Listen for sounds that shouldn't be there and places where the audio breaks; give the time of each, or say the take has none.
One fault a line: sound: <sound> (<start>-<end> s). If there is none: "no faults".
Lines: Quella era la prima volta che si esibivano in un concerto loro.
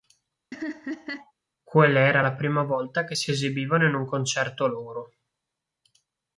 sound: laugh (0.5-1.3 s)